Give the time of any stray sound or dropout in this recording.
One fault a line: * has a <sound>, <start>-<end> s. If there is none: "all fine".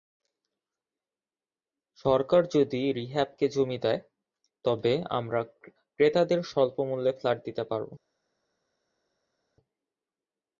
all fine